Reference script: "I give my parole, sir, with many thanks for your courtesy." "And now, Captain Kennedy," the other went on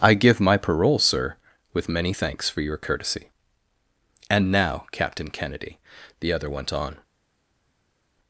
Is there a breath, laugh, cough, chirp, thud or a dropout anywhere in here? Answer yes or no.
no